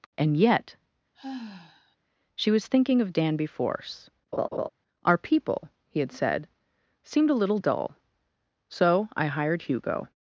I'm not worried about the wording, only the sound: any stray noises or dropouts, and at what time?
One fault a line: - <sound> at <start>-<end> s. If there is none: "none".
- sigh at 1.1-2.0 s
- laugh at 4.3-4.7 s